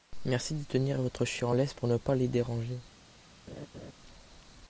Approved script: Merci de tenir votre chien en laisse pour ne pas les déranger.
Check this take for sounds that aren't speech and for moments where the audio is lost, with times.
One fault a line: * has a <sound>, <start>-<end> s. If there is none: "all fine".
* has a laugh, 3.5-3.9 s